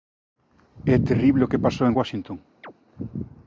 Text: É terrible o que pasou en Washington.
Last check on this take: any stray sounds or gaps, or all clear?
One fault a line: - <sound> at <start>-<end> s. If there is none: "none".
- chirp at 2.6-2.7 s